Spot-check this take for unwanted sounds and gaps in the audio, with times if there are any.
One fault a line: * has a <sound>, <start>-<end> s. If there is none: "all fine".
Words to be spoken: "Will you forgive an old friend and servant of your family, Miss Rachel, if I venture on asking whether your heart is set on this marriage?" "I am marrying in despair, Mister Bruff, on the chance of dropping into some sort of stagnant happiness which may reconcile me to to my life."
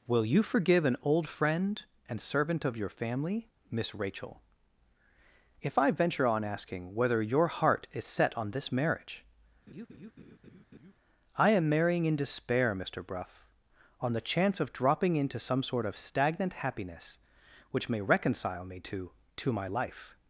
* has a laugh, 9.7-10.9 s